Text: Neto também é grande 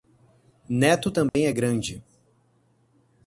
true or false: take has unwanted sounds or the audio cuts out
true